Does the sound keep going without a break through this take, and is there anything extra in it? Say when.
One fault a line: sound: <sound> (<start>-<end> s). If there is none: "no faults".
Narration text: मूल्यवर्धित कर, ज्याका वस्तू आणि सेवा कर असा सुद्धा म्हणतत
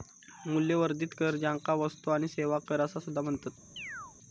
sound: chirp (3.8-4.2 s)